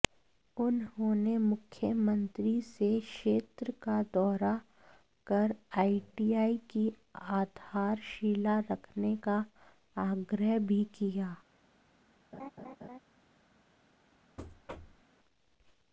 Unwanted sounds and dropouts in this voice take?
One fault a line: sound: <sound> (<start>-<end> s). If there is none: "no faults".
sound: laugh (12.3-13.0 s)
sound: thud (14.4-15.0 s)